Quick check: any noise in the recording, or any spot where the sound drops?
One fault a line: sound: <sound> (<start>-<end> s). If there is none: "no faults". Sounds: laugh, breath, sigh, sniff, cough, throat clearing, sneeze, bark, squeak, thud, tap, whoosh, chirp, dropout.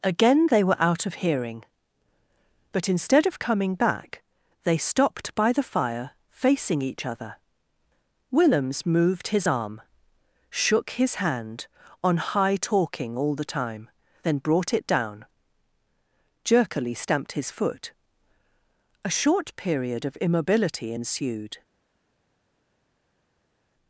no faults